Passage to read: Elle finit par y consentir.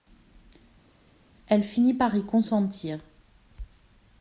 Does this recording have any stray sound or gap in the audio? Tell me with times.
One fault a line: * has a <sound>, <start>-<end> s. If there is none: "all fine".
all fine